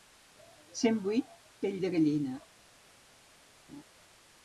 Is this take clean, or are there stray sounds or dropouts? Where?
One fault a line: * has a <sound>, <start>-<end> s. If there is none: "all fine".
* has a laugh, 3.7-3.8 s